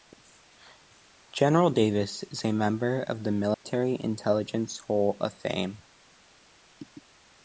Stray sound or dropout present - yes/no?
yes